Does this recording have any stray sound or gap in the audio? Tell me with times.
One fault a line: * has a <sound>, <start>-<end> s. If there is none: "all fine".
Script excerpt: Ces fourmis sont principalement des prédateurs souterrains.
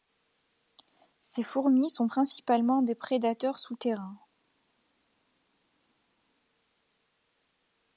all fine